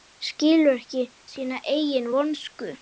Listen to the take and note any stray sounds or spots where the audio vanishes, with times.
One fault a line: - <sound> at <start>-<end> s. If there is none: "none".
none